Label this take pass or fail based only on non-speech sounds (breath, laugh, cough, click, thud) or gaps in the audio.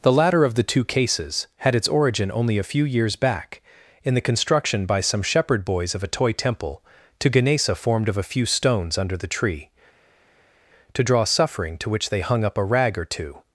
pass